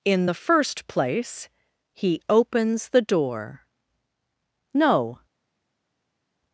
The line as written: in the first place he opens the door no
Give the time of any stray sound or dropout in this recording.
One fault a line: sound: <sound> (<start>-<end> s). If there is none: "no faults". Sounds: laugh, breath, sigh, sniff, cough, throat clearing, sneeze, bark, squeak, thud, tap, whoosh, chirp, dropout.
no faults